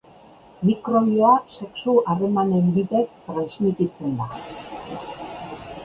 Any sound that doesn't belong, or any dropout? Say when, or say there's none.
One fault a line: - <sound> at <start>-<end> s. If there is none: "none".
none